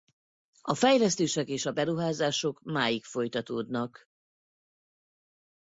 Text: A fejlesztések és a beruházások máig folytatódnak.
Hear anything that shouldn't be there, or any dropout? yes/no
no